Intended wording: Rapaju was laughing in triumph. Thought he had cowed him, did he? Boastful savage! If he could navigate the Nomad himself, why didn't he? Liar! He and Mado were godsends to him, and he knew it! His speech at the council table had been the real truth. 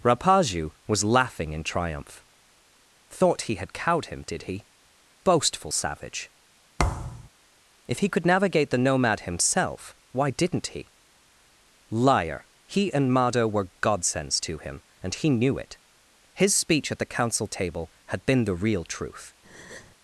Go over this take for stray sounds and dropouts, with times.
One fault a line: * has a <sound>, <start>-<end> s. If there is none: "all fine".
* has a thud, 6.8-7.3 s
* has a breath, 19.4-20.0 s